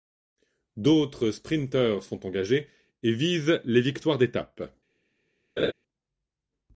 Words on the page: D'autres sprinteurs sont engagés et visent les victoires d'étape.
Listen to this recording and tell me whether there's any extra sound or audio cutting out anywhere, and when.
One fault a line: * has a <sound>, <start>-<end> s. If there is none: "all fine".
* has a laugh, 5.6-5.7 s